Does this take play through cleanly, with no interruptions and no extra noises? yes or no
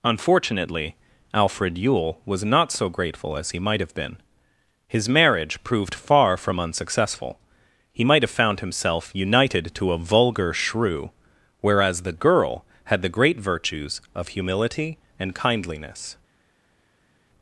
yes